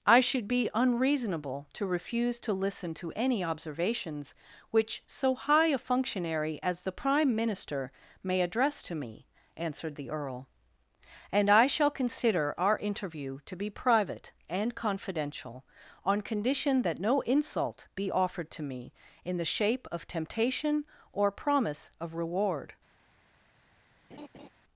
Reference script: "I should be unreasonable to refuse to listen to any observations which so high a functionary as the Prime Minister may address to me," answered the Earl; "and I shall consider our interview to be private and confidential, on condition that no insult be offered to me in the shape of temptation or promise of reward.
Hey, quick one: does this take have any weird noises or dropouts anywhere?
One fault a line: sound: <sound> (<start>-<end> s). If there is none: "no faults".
sound: laugh (24.1-24.5 s)